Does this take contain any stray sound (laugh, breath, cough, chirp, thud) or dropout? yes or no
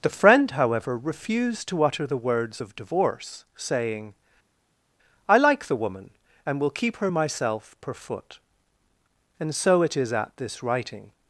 no